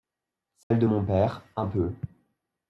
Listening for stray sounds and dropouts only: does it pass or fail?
fail